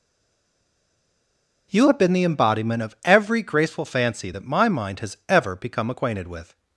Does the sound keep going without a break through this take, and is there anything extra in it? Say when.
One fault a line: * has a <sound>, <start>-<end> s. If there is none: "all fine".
all fine